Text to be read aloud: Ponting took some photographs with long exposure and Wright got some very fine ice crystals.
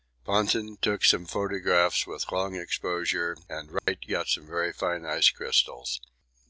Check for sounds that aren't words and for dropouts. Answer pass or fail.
fail